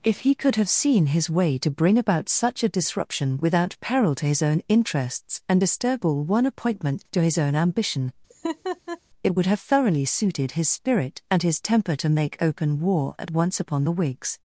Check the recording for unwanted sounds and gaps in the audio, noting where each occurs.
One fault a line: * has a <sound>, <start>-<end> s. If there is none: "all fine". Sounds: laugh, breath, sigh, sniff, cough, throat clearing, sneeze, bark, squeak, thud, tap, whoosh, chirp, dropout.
* has a laugh, 8.3-9.0 s